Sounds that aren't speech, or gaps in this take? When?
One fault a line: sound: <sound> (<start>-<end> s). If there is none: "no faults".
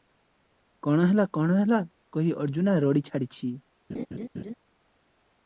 sound: laugh (3.9-4.5 s)